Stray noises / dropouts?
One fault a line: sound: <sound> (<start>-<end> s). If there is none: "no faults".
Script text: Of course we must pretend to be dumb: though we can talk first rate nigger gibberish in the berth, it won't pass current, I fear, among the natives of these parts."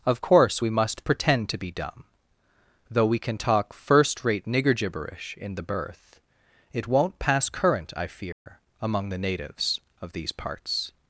sound: dropout (8.3-8.5 s)